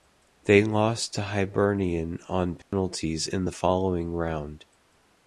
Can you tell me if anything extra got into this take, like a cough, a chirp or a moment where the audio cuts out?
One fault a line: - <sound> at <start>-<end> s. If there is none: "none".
- dropout at 2.6-2.7 s